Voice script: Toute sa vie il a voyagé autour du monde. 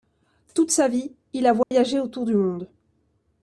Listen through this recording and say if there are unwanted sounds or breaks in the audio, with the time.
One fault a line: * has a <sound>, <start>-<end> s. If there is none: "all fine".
* has a dropout, 1.6-1.7 s